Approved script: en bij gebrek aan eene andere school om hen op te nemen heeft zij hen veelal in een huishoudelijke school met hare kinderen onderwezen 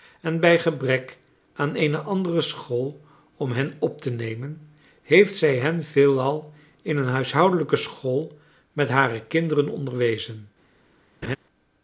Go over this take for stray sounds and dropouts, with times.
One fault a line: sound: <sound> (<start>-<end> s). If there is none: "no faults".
sound: laugh (11.2-11.4 s)